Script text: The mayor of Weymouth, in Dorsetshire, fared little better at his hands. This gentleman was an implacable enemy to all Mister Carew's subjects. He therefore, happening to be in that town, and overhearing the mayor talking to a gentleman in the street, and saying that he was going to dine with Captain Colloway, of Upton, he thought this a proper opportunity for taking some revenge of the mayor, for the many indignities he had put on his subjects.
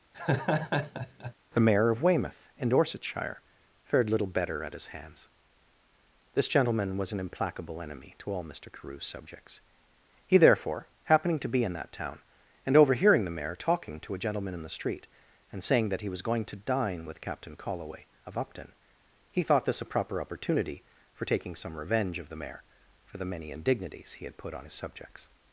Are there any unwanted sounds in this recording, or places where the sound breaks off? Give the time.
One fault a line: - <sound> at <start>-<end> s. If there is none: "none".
- laugh at 0.1-1.3 s